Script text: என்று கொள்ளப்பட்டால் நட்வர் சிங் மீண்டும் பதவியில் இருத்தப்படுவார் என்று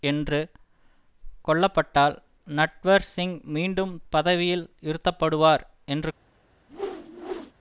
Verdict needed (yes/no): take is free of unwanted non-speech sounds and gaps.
no